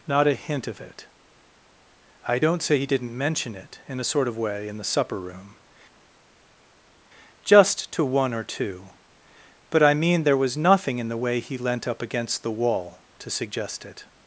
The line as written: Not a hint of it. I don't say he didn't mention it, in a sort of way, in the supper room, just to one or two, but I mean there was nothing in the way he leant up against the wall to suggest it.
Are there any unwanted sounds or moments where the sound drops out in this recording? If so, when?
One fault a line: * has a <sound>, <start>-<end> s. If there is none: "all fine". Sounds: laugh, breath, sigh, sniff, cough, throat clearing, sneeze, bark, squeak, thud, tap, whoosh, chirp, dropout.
all fine